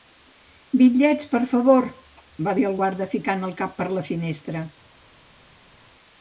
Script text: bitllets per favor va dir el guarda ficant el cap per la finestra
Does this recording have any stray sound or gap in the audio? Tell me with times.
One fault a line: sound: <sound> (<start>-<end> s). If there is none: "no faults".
no faults